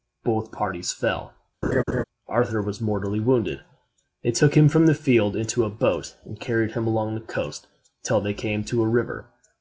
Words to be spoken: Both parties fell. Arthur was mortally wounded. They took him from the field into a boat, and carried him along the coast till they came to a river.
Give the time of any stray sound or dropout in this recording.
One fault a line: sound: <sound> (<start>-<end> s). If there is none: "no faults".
sound: laugh (1.6-2.0 s)